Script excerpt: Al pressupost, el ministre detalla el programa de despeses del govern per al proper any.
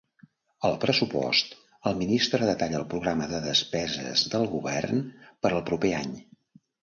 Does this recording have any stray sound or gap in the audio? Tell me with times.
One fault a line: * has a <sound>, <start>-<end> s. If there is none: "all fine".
all fine